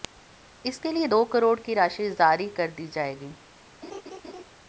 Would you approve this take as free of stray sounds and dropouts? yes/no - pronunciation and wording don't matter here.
no